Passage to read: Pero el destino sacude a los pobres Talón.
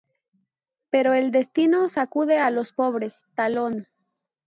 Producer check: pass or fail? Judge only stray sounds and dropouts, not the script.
pass